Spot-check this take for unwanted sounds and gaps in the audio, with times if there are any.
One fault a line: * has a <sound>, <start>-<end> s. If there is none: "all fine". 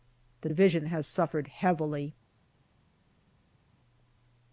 all fine